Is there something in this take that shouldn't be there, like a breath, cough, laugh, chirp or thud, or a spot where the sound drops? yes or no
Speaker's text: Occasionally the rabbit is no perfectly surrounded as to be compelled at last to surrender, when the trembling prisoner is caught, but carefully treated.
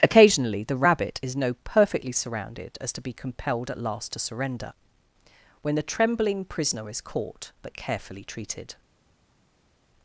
no